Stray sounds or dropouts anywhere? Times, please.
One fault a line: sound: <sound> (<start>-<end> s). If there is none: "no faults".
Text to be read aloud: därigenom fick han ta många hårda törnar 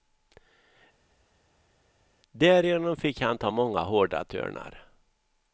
no faults